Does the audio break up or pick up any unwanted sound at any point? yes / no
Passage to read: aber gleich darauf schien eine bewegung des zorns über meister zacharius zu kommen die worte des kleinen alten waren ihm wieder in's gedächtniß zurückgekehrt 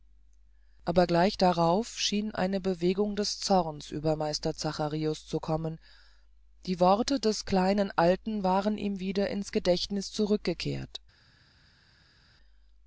no